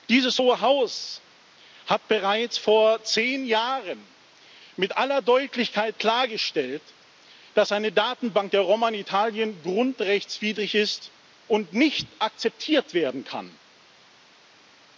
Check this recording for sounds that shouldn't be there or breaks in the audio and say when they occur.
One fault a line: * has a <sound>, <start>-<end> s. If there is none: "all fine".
all fine